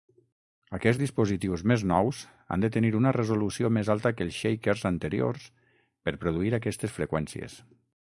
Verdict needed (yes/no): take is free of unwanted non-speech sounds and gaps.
yes